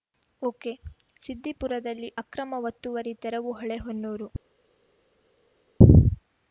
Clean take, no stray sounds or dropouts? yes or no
yes